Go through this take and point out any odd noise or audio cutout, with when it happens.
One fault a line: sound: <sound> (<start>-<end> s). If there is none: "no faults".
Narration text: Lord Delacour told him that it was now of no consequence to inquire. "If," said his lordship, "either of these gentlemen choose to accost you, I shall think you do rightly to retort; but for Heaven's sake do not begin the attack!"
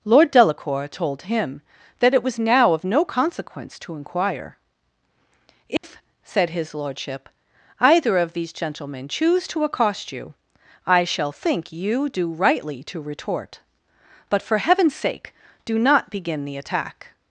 sound: dropout (5.8-5.8 s)